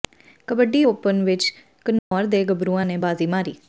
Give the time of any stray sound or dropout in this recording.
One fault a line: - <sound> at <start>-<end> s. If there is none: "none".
- dropout at 2.0-2.1 s